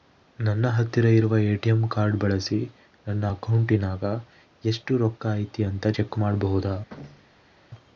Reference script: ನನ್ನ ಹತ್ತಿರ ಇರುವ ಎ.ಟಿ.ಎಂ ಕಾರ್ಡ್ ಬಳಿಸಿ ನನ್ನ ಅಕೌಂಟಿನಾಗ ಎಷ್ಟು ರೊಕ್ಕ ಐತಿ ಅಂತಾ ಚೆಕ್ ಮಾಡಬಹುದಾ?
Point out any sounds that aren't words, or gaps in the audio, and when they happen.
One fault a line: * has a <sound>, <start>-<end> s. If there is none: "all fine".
* has a thud, 6.9-7.5 s